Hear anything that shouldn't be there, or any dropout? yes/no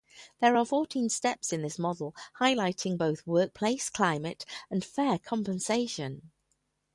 no